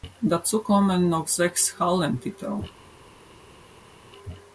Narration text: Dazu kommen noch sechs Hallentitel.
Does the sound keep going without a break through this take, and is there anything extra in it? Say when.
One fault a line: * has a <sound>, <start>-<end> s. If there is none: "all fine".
all fine